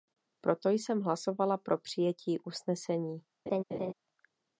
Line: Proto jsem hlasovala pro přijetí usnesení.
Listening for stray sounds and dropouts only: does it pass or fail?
fail